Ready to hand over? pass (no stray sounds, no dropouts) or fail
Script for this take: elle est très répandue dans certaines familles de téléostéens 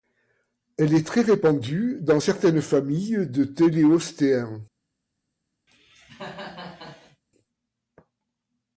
fail